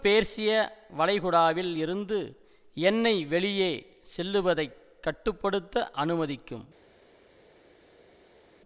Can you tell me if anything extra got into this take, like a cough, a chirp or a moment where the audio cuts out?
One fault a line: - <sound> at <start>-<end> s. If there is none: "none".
none